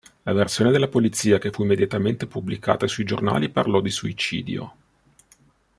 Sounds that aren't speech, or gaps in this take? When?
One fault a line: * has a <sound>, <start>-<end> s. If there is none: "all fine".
all fine